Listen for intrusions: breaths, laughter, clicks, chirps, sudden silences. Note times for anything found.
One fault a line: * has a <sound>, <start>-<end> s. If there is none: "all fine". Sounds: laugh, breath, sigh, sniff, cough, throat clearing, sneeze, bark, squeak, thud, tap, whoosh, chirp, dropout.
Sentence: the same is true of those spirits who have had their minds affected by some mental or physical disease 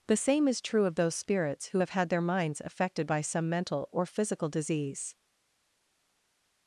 all fine